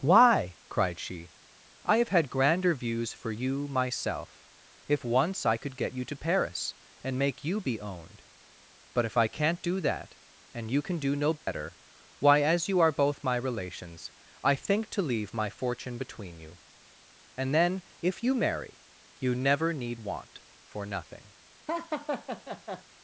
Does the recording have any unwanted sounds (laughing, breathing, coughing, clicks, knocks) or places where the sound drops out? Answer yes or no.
yes